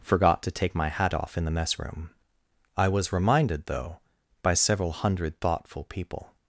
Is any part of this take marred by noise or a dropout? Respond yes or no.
no